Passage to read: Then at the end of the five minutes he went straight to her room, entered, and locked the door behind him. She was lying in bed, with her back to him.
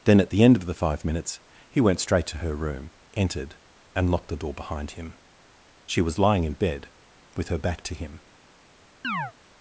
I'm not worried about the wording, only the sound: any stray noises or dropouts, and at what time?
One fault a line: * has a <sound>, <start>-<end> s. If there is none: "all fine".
* has a chirp, 9.0-9.3 s